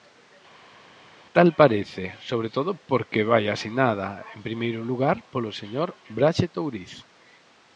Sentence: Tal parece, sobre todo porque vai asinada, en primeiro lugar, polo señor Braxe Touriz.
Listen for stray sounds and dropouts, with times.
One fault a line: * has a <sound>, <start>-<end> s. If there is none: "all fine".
all fine